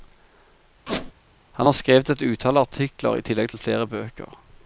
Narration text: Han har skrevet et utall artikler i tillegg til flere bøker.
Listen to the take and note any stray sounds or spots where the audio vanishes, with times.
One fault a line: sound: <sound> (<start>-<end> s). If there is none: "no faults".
sound: squeak (0.9-1.1 s)